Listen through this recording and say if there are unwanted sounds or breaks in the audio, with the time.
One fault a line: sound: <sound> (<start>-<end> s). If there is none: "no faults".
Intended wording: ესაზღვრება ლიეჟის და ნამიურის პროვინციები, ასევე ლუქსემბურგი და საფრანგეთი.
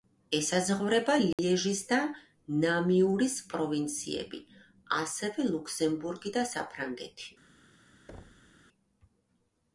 sound: dropout (1.3-1.4 s)
sound: thud (8.1-8.5 s)